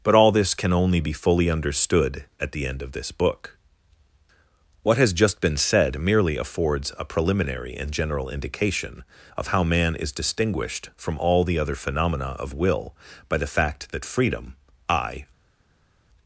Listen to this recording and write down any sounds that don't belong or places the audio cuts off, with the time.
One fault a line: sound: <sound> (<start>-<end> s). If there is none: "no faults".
no faults